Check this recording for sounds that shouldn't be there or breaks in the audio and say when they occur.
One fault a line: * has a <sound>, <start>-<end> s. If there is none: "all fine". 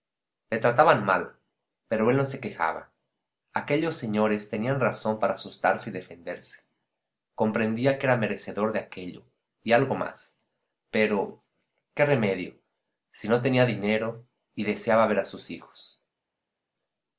all fine